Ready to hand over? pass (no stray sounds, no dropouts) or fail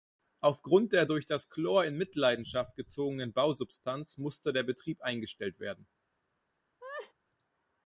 fail